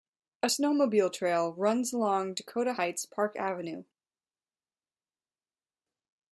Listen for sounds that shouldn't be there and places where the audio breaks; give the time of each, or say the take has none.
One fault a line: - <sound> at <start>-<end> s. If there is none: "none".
none